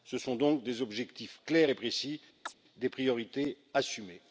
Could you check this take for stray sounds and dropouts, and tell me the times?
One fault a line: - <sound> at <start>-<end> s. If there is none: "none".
- chirp at 2.5-2.5 s